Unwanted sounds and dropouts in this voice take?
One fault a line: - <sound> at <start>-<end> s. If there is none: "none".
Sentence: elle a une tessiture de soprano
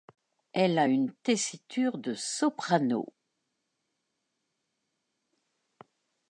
none